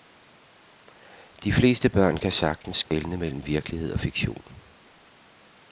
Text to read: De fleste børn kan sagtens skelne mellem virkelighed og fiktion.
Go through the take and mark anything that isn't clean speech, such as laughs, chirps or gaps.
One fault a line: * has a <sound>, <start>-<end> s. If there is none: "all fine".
* has a dropout, 2.8-2.9 s